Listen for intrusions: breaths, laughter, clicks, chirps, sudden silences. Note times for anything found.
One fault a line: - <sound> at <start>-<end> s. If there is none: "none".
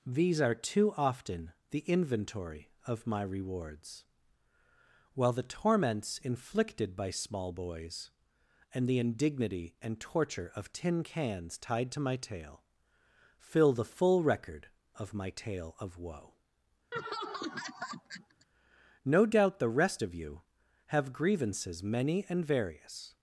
- laugh at 16.9-18.5 s